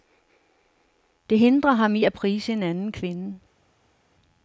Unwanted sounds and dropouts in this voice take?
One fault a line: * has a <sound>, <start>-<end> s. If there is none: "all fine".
all fine